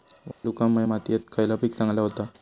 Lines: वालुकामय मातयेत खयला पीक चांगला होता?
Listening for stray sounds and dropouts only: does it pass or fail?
fail